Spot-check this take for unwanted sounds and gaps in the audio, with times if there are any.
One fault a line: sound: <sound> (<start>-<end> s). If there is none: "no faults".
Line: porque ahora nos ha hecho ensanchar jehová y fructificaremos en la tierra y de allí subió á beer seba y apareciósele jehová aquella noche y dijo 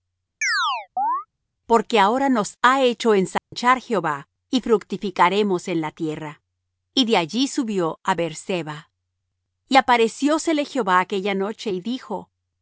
sound: chirp (0.4-1.3 s)
sound: dropout (3.4-3.5 s)